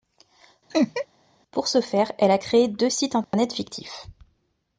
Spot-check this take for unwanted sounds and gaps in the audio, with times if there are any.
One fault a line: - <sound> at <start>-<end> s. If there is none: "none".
- laugh at 0.7-1.1 s
- dropout at 3.2-3.3 s